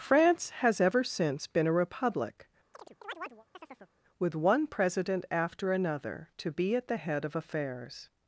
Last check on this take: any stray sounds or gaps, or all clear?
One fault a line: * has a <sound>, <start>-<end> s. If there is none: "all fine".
* has a chirp, 2.7-3.9 s